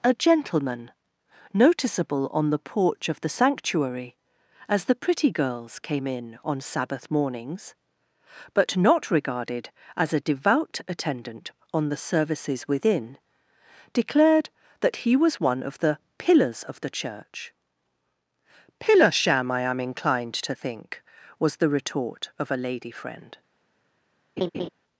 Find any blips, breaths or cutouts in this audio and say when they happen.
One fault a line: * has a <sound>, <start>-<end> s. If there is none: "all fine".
* has a laugh, 24.4-24.7 s